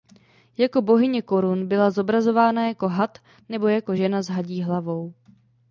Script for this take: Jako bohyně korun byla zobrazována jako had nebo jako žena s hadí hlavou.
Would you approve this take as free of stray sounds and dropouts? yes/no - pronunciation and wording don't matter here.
yes